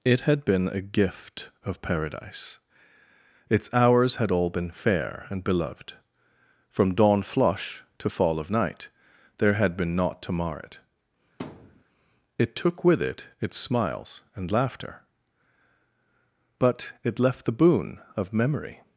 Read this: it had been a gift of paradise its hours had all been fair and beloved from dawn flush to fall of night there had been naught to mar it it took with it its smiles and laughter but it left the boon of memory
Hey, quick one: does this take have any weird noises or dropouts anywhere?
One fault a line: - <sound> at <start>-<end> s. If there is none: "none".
- thud at 11.4-11.8 s